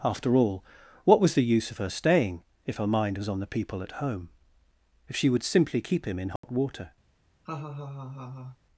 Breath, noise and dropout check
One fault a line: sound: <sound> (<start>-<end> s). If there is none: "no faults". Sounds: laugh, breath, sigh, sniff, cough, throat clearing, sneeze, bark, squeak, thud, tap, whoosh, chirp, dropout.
sound: dropout (6.4-6.4 s)
sound: laugh (7.4-8.6 s)